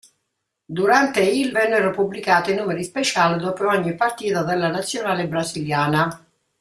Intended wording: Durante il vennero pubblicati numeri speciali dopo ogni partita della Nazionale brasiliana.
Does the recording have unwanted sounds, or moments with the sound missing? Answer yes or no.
no